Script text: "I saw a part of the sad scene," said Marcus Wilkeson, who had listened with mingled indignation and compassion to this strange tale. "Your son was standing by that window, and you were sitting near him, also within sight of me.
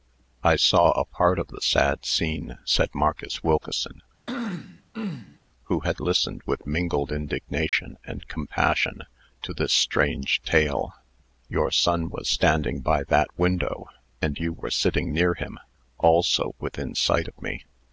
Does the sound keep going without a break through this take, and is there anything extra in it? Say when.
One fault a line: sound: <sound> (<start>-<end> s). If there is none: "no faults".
sound: throat clearing (4.3-5.4 s)
sound: dropout (7.7-7.7 s)